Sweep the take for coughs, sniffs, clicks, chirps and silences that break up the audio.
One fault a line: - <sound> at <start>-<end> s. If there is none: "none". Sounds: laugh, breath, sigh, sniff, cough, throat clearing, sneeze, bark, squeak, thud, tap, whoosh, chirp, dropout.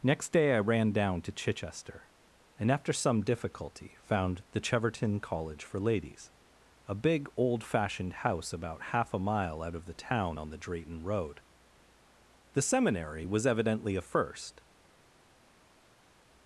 none